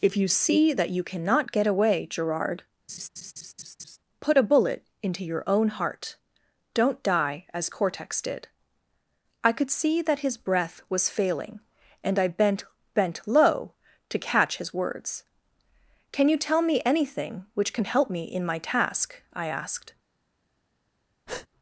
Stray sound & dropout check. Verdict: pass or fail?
fail